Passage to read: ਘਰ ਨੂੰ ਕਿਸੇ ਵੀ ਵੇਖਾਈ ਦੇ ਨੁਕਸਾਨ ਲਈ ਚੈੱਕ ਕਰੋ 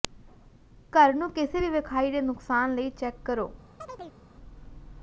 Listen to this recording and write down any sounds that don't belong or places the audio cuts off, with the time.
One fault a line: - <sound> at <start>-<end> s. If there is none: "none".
- chirp at 3.8-4.2 s